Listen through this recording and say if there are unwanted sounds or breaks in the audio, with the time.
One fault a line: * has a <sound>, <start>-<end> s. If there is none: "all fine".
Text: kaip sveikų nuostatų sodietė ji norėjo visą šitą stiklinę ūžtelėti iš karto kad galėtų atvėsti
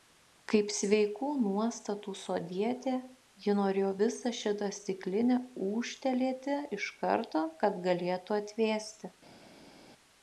all fine